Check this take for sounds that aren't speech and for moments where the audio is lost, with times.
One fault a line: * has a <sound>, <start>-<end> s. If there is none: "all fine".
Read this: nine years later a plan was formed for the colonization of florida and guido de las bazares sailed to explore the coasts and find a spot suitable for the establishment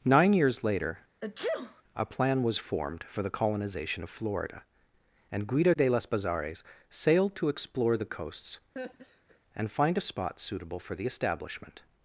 * has a sneeze, 1.2-1.8 s
* has a laugh, 8.8-9.4 s